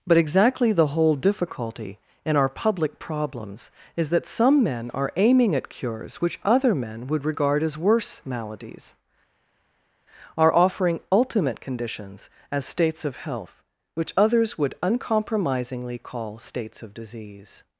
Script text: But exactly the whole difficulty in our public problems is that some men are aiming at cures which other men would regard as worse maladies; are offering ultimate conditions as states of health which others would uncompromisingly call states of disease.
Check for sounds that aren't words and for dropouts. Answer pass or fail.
pass